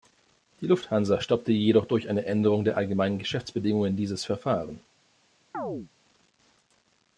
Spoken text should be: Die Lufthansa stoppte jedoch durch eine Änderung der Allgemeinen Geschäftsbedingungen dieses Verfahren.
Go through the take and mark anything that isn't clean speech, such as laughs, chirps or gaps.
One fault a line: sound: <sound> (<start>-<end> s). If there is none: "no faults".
sound: chirp (5.5-5.9 s)